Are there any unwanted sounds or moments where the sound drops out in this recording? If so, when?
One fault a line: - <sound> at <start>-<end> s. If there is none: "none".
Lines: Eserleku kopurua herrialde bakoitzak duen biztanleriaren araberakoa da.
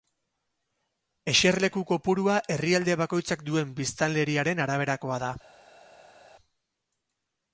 none